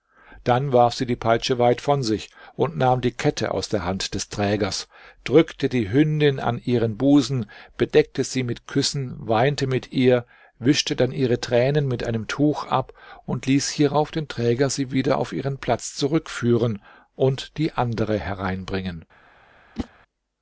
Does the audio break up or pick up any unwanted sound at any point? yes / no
yes